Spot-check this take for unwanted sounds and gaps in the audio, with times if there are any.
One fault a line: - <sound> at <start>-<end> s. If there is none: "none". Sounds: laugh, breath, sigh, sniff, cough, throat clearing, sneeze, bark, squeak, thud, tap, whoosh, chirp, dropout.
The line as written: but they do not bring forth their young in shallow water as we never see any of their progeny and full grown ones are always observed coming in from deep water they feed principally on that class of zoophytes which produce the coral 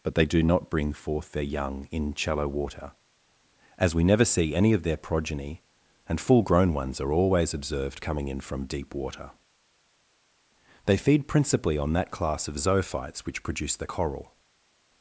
none